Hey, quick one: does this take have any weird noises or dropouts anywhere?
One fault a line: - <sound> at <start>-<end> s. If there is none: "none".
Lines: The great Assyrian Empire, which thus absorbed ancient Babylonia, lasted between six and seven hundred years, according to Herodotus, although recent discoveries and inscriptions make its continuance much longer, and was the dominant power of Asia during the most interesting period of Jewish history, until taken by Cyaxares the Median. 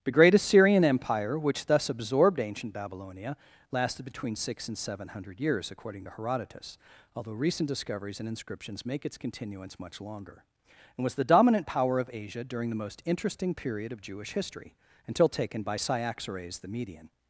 none